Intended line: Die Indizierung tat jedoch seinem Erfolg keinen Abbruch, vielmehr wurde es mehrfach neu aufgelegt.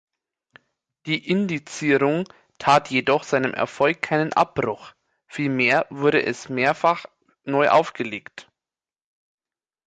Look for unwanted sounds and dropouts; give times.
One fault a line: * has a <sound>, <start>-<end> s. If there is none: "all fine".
all fine